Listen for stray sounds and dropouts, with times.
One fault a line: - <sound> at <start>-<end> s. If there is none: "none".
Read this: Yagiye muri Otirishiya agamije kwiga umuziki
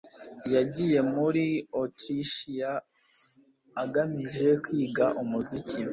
none